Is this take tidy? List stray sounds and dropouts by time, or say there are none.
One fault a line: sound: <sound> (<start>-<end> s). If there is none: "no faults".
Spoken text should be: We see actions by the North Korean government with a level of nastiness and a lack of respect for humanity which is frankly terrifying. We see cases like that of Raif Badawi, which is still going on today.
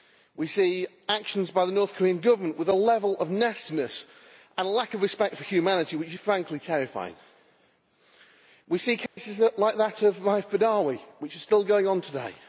sound: dropout (9.1-9.2 s)